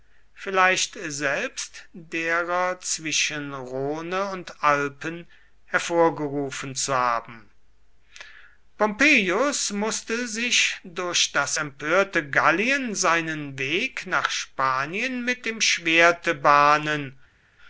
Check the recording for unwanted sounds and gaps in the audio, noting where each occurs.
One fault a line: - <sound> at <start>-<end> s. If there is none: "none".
none